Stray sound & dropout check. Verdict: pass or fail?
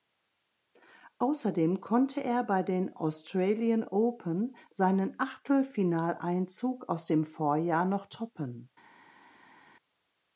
pass